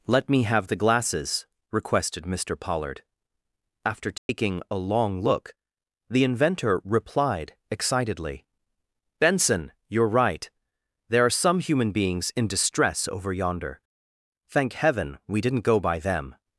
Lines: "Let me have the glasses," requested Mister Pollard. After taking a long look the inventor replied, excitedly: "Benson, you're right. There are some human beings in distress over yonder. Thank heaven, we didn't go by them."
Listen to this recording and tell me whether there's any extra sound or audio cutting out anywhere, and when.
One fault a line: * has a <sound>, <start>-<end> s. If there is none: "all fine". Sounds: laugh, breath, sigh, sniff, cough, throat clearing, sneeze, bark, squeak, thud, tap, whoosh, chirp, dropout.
* has a dropout, 4.2-4.3 s